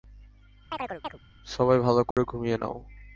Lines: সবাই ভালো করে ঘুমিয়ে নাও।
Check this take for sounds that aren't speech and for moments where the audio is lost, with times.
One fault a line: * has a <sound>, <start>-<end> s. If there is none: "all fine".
* has a chirp, 0.7-1.2 s
* has a dropout, 2.1-2.2 s